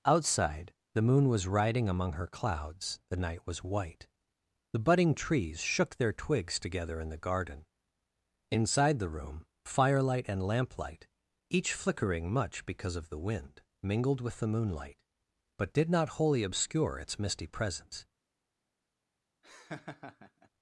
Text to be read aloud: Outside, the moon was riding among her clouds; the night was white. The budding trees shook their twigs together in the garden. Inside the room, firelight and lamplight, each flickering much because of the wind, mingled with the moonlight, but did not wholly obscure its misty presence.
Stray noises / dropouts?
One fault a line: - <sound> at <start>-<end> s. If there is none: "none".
- laugh at 19.4-20.5 s